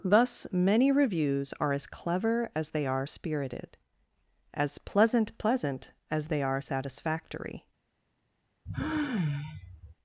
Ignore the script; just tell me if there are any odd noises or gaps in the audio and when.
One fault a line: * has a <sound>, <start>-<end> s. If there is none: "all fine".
* has a sigh, 8.7-10.0 s